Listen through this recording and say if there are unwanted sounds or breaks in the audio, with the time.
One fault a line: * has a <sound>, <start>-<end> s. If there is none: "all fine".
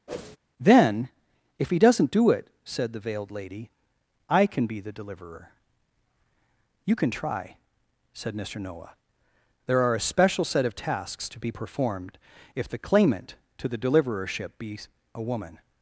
* has a whoosh, 0.1-0.4 s